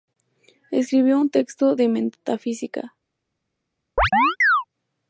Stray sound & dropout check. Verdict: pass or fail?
fail